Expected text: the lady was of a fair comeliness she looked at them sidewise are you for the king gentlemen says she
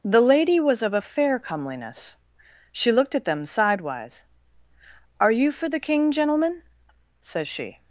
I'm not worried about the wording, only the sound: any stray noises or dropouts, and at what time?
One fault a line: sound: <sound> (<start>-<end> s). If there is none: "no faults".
no faults